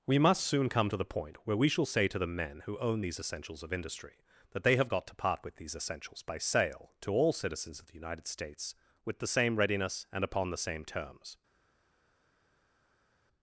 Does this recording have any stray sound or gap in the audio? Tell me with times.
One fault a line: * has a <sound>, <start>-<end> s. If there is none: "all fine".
all fine